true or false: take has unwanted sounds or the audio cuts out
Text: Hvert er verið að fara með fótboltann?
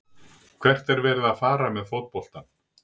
false